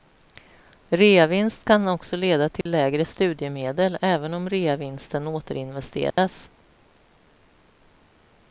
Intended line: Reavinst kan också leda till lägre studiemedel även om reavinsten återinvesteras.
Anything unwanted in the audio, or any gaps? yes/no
yes